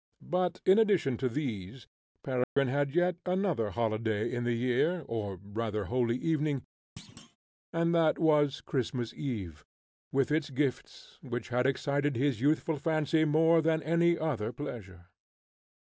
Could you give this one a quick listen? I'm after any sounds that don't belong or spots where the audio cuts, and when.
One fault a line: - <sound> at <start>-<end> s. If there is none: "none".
- dropout at 2.4-2.6 s
- thud at 7.0-7.4 s